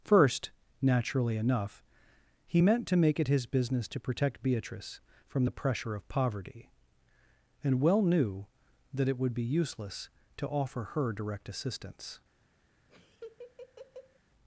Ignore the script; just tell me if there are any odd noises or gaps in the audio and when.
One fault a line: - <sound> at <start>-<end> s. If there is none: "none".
- laugh at 12.9-14.2 s